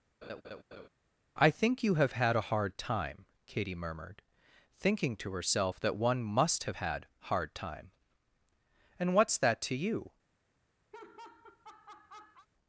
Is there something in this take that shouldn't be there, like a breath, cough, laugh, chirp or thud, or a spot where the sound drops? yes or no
yes